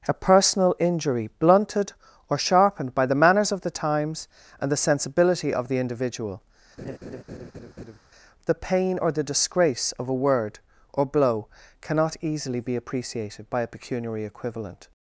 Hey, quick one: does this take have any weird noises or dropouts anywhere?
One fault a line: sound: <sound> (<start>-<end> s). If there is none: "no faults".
sound: laugh (6.8-8.0 s)